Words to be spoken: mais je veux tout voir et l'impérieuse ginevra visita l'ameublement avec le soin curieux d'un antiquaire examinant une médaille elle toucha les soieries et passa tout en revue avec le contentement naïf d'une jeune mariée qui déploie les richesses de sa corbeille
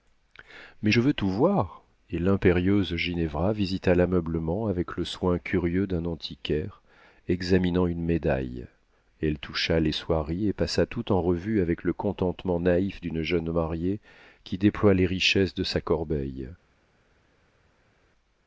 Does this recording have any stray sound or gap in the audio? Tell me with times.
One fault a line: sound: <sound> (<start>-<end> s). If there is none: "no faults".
no faults